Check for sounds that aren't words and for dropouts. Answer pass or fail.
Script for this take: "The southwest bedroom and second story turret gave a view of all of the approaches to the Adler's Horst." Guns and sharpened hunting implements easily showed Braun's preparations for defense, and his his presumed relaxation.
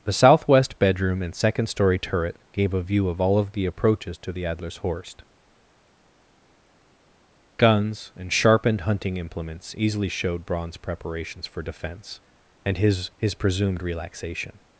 pass